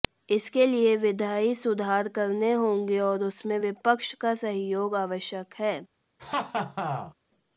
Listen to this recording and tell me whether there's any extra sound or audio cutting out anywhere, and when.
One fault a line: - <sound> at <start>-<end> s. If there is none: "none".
- laugh at 6.2-7.1 s